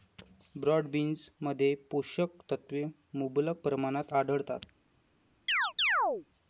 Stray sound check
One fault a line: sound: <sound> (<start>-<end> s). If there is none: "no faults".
sound: chirp (5.5-6.3 s)